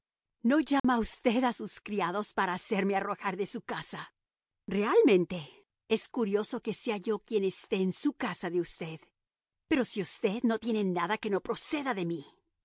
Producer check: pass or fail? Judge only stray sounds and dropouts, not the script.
fail